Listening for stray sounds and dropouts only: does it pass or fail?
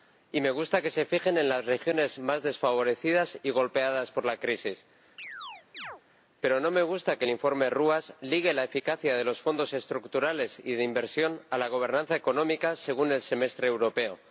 fail